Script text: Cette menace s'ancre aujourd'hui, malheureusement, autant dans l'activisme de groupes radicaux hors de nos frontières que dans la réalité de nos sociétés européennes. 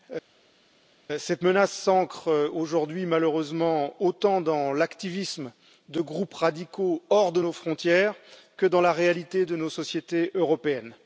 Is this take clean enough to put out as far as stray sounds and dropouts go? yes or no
yes